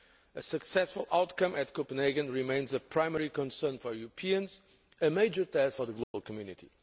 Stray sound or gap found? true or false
true